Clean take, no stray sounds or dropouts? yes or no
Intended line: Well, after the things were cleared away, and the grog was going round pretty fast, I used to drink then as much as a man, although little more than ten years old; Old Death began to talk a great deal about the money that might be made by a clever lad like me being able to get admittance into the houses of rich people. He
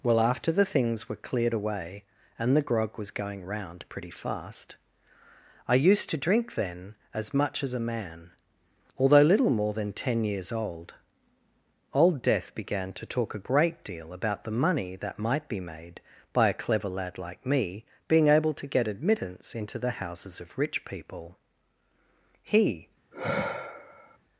no